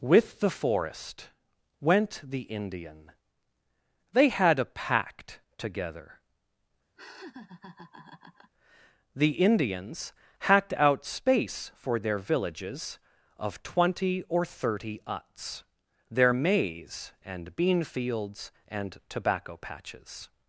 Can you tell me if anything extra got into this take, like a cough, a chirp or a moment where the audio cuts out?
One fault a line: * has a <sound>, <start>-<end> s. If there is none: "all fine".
* has a laugh, 7.0-8.5 s